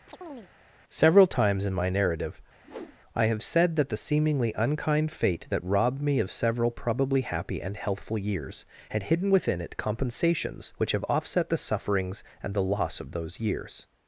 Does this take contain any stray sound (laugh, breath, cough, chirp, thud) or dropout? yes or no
yes